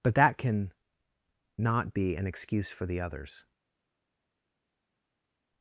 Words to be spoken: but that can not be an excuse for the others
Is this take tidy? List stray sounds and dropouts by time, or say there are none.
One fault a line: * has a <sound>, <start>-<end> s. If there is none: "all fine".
all fine